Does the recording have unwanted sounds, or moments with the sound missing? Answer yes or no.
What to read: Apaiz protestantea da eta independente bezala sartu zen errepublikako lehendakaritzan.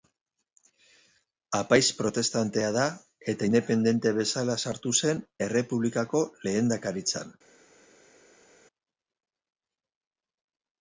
no